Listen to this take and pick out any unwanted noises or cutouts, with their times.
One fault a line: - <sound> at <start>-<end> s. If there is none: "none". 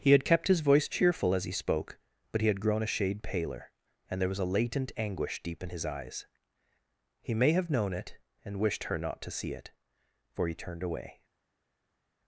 none